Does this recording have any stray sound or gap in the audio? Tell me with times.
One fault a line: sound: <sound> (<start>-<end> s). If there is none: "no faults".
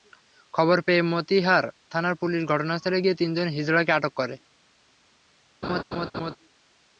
sound: laugh (5.6-6.4 s)